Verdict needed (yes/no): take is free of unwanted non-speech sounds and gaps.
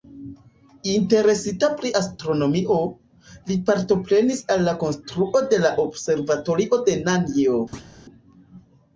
no